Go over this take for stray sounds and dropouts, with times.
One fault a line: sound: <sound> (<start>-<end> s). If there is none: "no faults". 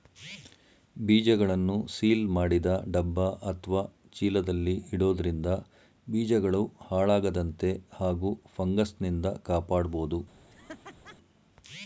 sound: laugh (10.5-11.2 s)